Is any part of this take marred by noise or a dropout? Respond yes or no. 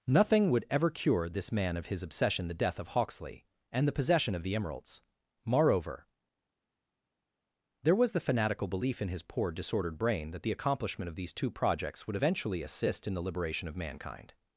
no